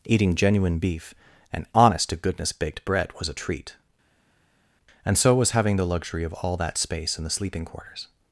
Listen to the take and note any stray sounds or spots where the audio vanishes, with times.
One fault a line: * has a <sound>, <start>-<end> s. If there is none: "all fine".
all fine